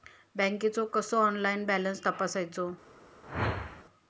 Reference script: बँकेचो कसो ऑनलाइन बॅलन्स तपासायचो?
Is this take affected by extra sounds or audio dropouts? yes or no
yes